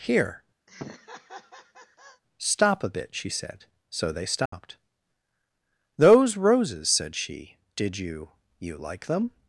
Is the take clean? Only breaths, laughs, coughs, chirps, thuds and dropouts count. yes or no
no